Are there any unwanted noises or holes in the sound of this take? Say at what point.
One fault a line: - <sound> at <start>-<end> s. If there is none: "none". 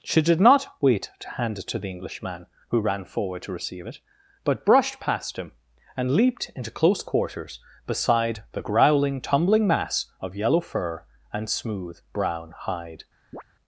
- chirp at 13.3-13.4 s